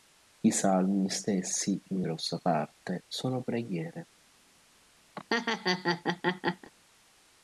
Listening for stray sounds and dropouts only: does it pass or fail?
fail